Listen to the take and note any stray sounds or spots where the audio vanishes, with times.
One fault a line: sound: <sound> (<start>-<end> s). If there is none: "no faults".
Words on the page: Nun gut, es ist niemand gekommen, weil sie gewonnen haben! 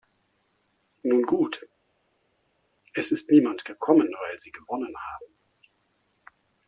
no faults